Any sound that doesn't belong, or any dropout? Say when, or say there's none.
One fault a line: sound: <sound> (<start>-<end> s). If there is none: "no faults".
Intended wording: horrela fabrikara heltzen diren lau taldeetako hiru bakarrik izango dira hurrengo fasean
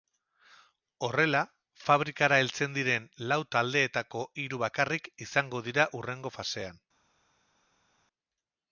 no faults